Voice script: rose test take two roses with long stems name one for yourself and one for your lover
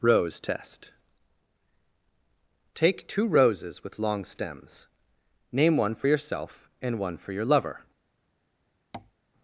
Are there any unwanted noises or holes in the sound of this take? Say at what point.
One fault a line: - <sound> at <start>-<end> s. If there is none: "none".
- tap at 8.9-9.1 s